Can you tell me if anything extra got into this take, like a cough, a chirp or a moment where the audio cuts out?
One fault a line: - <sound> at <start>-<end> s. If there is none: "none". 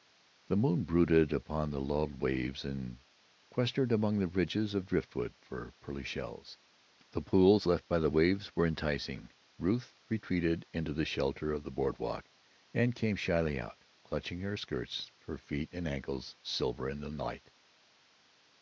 none